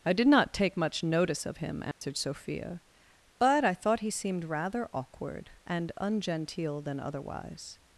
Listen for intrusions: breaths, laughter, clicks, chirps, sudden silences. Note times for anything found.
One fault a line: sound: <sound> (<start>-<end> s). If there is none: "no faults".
sound: dropout (1.9-2.0 s)